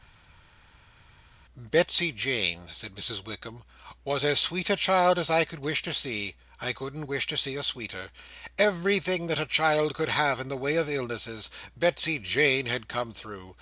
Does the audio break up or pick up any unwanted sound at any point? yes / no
no